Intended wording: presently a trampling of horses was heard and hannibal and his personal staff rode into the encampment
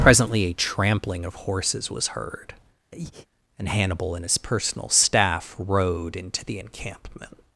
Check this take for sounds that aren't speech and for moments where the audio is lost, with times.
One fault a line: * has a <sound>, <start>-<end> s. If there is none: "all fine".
* has a breath, 2.9-3.3 s